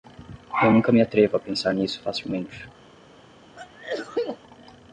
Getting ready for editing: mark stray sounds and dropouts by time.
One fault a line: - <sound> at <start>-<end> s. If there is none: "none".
- sneeze at 3.6-4.4 s